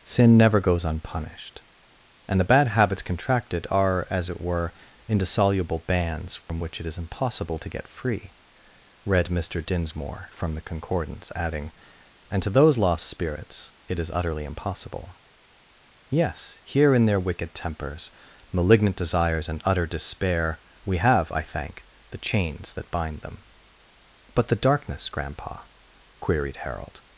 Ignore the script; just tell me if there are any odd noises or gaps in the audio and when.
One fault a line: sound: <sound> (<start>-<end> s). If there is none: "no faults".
sound: dropout (6.4-6.5 s)